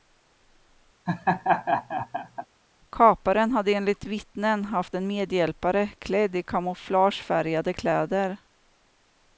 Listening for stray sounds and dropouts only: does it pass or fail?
fail